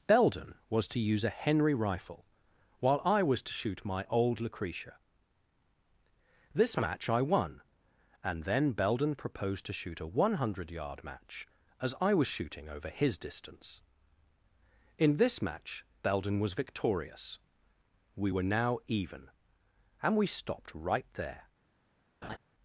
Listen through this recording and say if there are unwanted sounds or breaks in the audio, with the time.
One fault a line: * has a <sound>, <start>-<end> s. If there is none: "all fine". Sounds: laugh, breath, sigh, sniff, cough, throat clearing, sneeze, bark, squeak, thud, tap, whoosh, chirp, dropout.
* has a laugh, 22.2-22.4 s